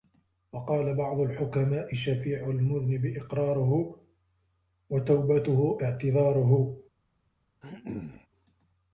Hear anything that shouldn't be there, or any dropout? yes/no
yes